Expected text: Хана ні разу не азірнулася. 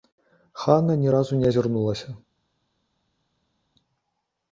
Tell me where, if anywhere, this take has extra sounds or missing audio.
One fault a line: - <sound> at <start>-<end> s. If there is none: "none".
none